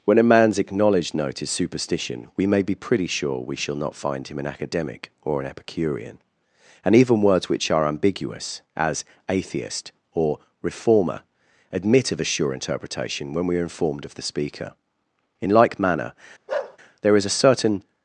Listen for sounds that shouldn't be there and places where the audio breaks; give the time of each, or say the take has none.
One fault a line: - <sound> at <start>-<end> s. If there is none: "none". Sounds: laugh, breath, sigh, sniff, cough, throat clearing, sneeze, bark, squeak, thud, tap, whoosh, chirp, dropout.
- bark at 16.5-16.8 s